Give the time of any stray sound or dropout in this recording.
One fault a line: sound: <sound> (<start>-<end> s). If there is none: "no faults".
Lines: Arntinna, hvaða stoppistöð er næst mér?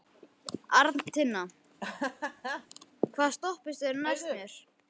sound: laugh (1.8-2.7 s)